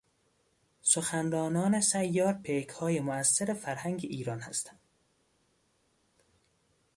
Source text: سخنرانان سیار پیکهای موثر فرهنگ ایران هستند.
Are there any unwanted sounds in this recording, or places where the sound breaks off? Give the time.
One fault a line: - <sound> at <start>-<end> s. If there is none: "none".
none